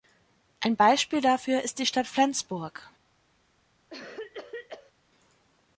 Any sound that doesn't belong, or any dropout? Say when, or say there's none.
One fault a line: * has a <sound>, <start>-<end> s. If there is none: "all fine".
* has a cough, 3.9-4.9 s